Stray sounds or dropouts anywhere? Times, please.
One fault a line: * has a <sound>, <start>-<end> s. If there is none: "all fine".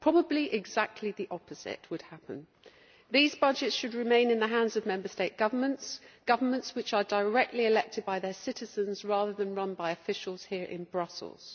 all fine